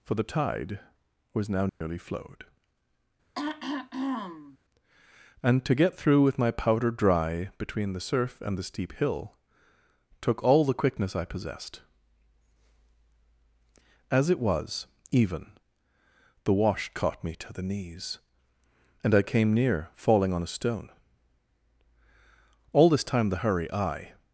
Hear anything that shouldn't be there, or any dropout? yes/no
yes